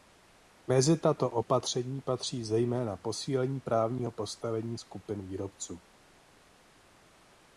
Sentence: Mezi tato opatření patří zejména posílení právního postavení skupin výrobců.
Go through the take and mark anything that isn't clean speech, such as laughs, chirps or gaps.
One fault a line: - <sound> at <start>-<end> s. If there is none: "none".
none